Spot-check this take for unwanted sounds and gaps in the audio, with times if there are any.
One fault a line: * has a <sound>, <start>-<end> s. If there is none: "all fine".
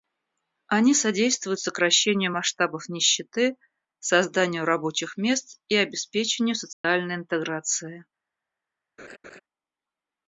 * has a dropout, 6.7-6.8 s
* has a laugh, 9.0-9.4 s